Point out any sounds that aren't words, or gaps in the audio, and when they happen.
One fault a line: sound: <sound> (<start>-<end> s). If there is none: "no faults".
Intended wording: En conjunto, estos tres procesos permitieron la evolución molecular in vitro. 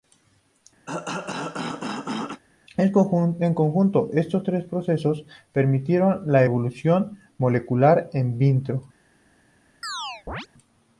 sound: cough (0.9-2.4 s)
sound: chirp (9.8-10.5 s)